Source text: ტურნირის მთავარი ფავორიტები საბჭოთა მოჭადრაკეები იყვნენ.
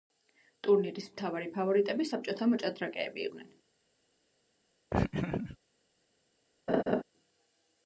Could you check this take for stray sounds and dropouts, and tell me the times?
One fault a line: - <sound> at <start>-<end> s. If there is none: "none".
- laugh at 4.9-5.6 s
- laugh at 6.7-7.0 s